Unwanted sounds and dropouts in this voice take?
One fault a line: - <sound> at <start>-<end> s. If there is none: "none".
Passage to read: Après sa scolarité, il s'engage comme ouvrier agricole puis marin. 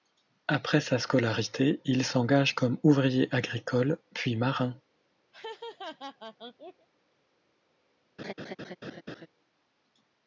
- laugh at 5.3-6.9 s
- laugh at 8.2-9.3 s